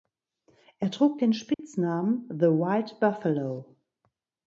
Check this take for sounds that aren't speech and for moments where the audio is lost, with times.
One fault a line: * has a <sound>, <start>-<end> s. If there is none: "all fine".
* has a dropout, 1.5-1.6 s